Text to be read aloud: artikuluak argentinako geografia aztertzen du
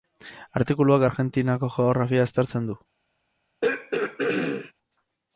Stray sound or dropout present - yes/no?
yes